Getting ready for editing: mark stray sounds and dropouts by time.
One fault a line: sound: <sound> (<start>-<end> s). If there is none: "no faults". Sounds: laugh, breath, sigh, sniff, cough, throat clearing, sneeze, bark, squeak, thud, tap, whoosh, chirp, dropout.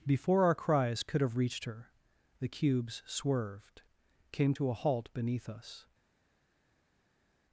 no faults